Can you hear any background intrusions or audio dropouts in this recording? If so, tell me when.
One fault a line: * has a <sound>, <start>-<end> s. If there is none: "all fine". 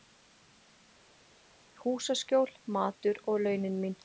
all fine